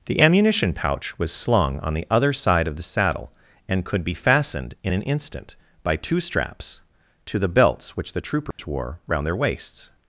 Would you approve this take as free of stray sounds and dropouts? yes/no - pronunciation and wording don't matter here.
no